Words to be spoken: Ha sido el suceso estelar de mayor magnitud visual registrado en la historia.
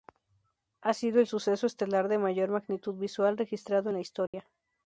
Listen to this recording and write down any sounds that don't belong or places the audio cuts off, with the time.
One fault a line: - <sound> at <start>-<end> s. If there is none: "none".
- dropout at 4.3-4.3 s